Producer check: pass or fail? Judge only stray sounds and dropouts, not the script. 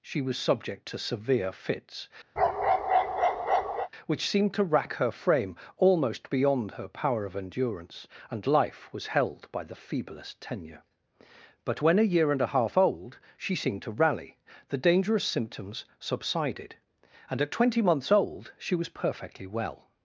fail